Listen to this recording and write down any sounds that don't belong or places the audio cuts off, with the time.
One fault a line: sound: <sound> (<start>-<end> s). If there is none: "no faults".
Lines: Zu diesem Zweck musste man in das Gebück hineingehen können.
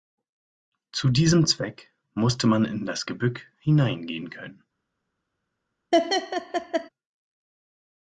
sound: laugh (5.9-6.9 s)